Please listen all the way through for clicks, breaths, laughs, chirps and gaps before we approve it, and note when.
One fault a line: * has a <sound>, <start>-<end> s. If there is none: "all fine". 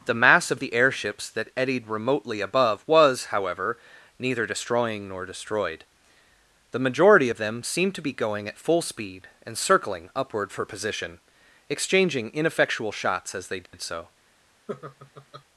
* has a dropout, 13.7-13.7 s
* has a laugh, 14.7-15.4 s